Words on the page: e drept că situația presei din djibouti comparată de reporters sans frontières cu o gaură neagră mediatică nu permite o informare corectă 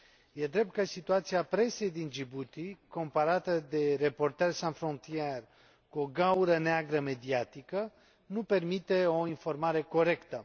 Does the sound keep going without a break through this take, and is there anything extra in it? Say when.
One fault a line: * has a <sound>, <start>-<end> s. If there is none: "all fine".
all fine